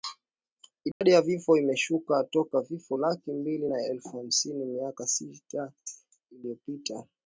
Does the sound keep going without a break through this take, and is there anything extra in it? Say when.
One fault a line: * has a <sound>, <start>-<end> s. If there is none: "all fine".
* has a dropout, 0.9-1.0 s